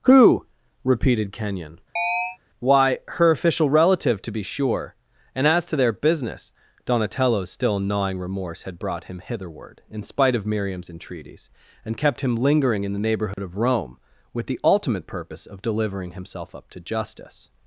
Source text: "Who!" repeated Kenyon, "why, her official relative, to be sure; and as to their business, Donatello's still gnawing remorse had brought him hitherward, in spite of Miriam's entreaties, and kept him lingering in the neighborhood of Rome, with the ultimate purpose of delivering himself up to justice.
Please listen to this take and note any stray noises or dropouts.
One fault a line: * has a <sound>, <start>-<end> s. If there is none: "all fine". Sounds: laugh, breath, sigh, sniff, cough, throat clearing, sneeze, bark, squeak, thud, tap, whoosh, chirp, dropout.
* has a chirp, 2.0-2.4 s
* has a dropout, 13.3-13.4 s